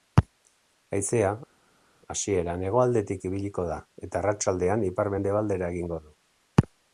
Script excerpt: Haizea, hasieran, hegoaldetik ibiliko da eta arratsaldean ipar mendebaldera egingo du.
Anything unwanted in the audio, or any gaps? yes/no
no